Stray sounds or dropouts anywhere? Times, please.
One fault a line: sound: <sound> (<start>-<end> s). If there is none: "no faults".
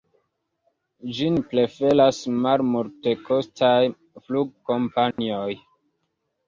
sound: dropout (5.1-5.2 s)